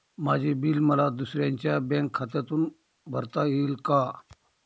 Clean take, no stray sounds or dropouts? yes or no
yes